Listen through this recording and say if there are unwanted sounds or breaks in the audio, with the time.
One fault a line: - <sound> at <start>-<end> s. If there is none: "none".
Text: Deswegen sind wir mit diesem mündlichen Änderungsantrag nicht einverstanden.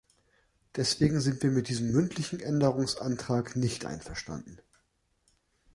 none